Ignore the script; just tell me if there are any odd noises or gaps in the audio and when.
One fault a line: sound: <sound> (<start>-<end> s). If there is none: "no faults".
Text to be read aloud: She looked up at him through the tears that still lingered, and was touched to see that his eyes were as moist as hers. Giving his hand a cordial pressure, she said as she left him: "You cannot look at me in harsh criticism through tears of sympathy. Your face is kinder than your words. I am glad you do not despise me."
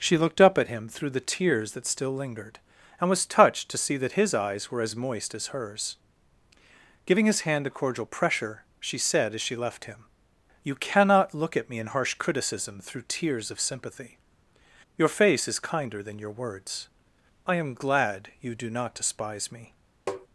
sound: tap (20.1-20.3 s)